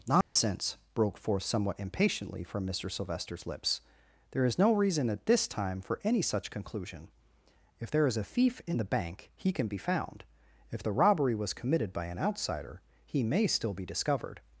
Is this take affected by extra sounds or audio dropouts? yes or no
yes